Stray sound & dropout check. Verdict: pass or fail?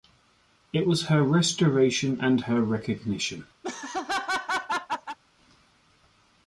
fail